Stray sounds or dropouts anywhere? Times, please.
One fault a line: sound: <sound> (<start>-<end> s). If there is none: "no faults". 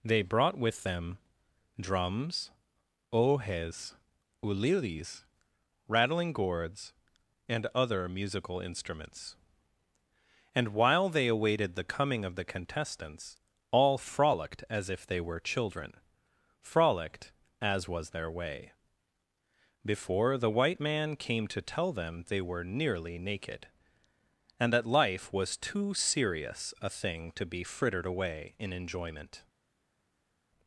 no faults